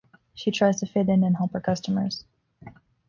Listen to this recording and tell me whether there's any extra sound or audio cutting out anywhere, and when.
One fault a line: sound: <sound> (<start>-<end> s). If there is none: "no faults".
no faults